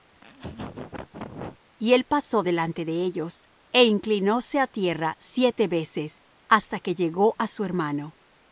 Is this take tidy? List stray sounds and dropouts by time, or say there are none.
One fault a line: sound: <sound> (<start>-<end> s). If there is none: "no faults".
sound: laugh (0.1-1.6 s)